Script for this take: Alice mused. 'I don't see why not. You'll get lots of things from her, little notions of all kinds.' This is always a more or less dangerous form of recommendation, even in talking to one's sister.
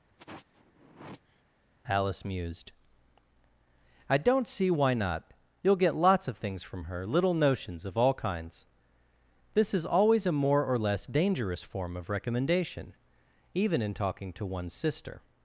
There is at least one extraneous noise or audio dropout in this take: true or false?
true